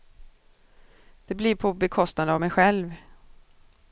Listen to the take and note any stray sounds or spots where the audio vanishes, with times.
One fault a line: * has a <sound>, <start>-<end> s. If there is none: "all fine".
all fine